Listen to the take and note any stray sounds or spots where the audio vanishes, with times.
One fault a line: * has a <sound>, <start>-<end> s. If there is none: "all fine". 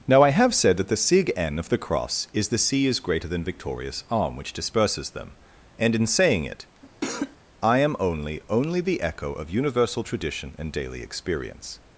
* has a cough, 6.8-7.4 s